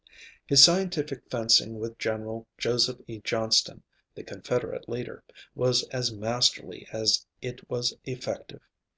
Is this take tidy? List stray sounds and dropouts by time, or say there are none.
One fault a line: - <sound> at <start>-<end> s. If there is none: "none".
none